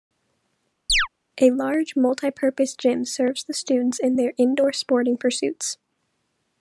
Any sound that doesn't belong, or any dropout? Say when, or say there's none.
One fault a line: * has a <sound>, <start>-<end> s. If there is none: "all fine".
* has a chirp, 0.9-1.1 s